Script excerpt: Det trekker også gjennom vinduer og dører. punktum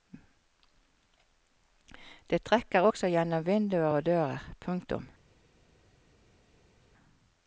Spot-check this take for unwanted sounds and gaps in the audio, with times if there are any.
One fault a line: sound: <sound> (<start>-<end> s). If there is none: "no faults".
no faults